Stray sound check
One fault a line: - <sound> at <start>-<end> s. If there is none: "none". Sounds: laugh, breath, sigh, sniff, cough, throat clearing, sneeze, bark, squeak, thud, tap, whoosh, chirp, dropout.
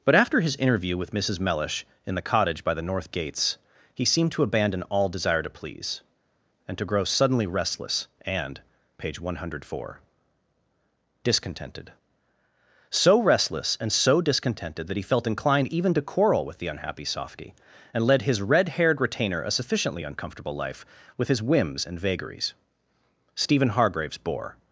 none